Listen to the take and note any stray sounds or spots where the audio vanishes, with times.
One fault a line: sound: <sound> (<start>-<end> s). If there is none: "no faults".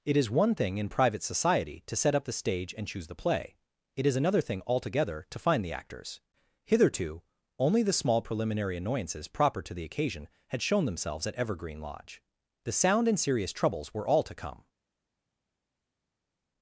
no faults